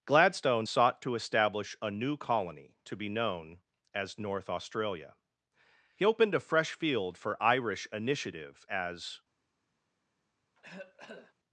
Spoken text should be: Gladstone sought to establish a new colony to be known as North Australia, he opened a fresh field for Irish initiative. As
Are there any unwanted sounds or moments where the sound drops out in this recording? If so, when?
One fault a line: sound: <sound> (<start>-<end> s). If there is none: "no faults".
sound: cough (10.5-11.3 s)